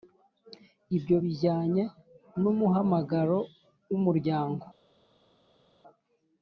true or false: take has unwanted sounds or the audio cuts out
false